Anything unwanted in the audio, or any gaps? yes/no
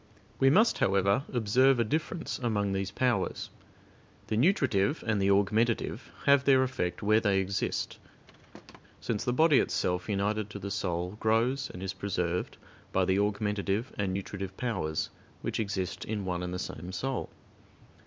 yes